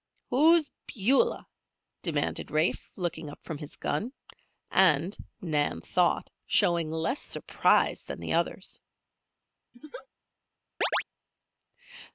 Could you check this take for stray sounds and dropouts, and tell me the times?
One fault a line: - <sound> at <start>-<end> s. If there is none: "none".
- laugh at 9.7-10.1 s
- chirp at 10.8-11.0 s